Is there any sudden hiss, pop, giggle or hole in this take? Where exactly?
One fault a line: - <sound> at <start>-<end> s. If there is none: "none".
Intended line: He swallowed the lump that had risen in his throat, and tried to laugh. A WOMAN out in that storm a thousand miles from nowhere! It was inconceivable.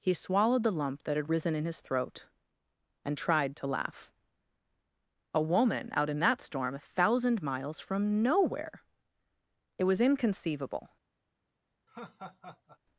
- laugh at 11.9-12.8 s